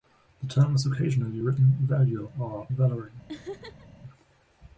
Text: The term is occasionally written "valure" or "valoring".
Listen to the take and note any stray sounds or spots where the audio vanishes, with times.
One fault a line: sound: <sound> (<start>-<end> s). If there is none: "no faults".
sound: laugh (3.3-3.9 s)